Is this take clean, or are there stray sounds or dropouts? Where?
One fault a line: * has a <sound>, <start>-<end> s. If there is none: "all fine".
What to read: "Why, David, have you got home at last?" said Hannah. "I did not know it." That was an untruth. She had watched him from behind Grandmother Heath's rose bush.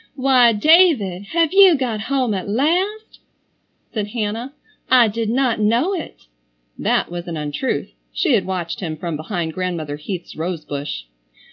all fine